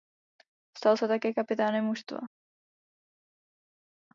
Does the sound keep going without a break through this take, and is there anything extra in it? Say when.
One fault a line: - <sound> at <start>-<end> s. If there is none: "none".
none